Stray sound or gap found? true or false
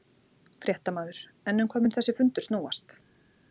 false